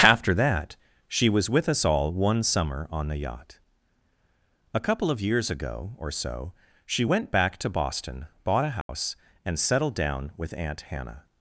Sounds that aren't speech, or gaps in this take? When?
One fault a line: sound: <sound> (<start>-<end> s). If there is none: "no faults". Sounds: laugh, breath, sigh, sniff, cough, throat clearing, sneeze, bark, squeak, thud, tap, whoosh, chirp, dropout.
sound: dropout (8.8-8.9 s)